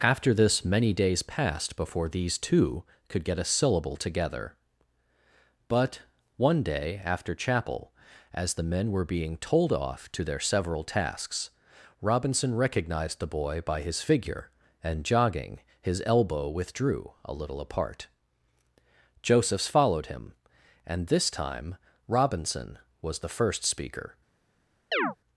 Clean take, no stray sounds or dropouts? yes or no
no